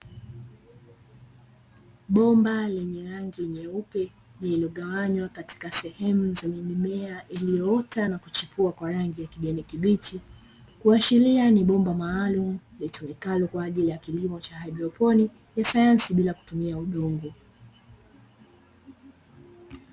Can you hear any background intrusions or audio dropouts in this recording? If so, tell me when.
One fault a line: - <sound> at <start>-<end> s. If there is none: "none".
none